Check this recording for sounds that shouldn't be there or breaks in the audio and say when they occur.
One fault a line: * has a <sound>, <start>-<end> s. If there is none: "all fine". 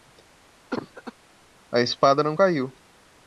* has a cough, 0.7-1.1 s